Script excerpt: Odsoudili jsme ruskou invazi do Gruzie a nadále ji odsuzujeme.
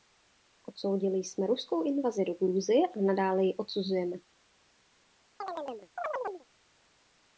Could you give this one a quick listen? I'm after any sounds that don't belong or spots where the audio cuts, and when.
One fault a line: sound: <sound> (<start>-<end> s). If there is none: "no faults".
sound: chirp (5.4-6.5 s)